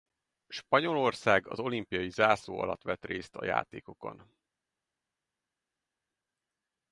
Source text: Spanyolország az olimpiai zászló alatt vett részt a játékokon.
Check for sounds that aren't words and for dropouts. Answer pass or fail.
pass